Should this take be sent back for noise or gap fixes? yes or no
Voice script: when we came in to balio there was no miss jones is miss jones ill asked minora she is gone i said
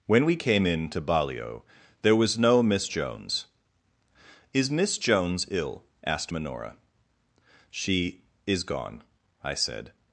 no